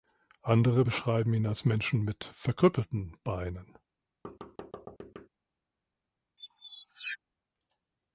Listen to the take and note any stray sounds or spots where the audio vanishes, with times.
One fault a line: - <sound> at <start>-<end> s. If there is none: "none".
- thud at 4.2-5.3 s
- squeak at 6.4-7.2 s